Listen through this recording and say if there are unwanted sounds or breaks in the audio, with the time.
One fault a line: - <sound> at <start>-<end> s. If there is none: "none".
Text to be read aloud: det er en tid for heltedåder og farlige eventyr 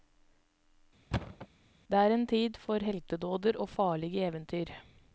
- thud at 1.1-1.5 s